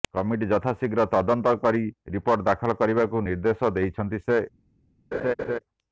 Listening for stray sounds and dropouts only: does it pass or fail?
fail